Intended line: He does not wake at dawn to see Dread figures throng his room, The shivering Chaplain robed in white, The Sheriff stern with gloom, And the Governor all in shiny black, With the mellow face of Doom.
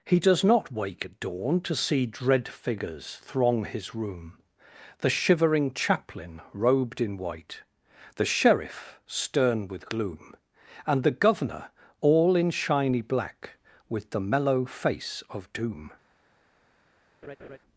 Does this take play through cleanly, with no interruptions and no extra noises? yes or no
no